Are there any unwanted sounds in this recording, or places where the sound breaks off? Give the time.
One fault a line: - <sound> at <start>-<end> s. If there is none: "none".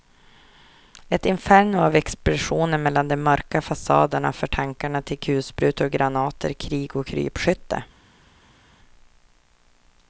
none